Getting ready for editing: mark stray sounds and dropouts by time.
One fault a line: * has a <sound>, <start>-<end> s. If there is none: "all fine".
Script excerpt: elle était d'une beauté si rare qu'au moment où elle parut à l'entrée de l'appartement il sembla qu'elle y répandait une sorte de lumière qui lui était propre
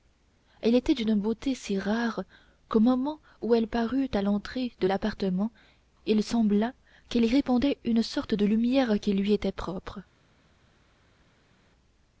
all fine